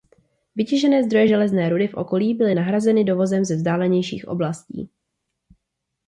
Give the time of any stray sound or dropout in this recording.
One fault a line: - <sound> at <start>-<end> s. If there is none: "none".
none